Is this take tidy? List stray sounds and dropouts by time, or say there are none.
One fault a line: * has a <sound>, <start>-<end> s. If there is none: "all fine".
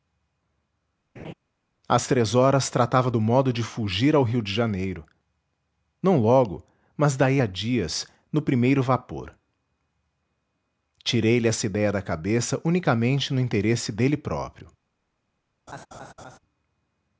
* has a laugh, 1.2-1.3 s
* has a laugh, 15.7-16.4 s